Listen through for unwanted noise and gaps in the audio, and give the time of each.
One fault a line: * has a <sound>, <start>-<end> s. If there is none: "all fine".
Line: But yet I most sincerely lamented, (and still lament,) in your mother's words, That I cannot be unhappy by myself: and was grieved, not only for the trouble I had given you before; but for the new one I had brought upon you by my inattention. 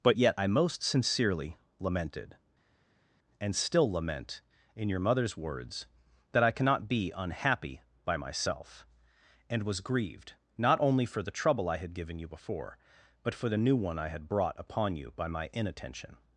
all fine